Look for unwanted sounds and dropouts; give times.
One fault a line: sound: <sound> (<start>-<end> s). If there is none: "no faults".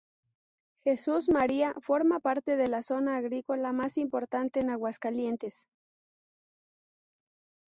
no faults